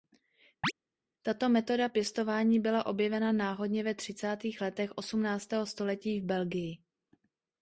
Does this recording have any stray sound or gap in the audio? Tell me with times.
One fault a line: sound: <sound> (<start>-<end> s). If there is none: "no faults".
sound: chirp (0.6-0.7 s)